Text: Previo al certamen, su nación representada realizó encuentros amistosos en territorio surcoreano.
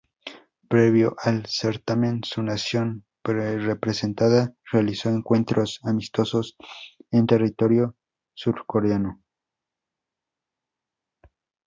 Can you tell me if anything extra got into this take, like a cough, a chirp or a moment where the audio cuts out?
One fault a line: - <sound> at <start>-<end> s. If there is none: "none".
none